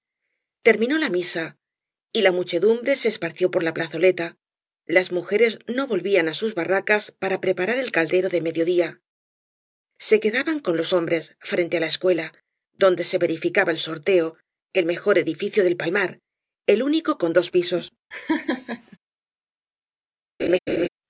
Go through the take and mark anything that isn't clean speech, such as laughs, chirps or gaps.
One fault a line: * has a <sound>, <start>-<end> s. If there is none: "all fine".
* has a laugh, 18.1-19.0 s
* has a laugh, 20.4-20.9 s